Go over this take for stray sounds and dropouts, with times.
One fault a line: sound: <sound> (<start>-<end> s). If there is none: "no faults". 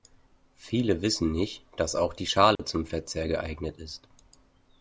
sound: dropout (2.6-2.6 s)